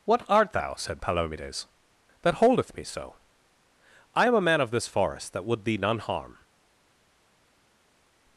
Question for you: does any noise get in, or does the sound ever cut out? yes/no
no